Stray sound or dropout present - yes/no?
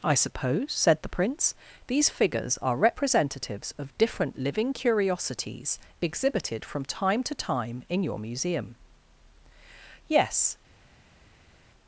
no